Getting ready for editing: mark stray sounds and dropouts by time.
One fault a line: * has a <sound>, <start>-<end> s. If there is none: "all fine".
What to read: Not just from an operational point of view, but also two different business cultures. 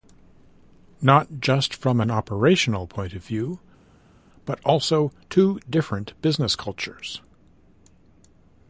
all fine